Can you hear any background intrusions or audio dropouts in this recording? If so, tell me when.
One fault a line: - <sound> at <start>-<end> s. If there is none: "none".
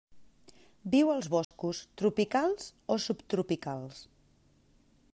- dropout at 1.4-1.5 s